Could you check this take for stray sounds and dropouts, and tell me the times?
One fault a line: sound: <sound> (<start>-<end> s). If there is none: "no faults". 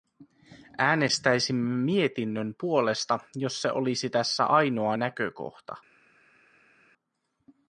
no faults